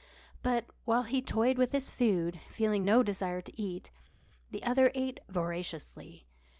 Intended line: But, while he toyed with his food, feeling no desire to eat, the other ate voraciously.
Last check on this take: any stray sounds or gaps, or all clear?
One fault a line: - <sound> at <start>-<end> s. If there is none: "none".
none